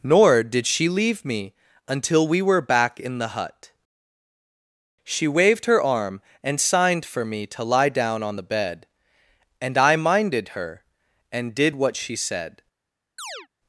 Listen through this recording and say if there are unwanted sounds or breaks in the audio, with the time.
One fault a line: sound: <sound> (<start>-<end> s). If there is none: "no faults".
sound: chirp (13.2-13.5 s)